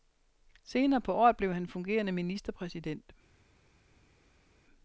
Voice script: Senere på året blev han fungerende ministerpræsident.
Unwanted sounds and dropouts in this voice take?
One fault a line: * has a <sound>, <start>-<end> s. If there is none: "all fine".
all fine